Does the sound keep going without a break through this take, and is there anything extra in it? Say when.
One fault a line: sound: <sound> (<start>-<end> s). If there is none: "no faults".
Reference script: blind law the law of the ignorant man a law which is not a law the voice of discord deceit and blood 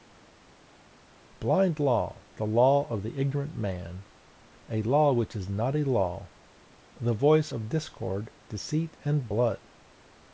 no faults